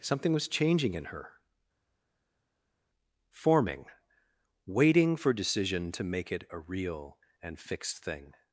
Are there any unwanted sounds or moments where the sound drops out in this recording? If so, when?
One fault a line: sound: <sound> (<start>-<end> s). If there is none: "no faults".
no faults